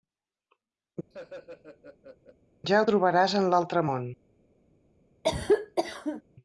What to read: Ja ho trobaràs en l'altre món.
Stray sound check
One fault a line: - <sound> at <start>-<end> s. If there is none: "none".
- laugh at 1.1-2.4 s
- cough at 5.2-6.2 s